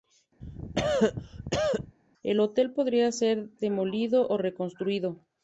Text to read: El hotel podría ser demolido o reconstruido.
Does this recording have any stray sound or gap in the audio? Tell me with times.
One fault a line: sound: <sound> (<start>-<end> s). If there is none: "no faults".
sound: cough (0.4-2.0 s)